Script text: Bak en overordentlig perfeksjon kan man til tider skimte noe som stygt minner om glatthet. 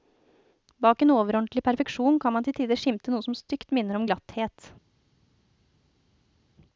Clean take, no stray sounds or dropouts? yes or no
yes